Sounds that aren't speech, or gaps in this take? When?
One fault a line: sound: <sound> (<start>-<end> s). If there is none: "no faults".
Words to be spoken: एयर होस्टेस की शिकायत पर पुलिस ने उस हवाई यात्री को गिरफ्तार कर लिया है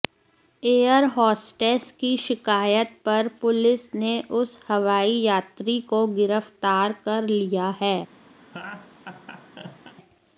sound: laugh (8.4-9.9 s)